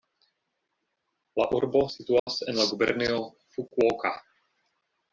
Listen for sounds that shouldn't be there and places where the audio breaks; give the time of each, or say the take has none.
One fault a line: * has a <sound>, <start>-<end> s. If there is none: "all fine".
* has a dropout, 2.2-2.3 s